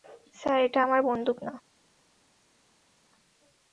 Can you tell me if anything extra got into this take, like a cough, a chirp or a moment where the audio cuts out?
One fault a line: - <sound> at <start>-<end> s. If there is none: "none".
none